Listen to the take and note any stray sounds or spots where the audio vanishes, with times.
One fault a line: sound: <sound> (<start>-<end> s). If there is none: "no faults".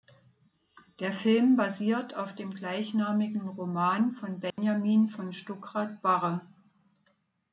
sound: dropout (4.5-4.6 s)